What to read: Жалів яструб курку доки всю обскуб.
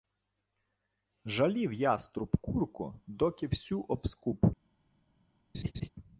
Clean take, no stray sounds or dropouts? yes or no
no